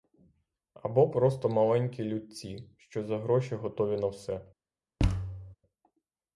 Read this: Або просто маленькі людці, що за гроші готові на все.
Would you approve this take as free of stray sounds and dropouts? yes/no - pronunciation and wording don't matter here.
no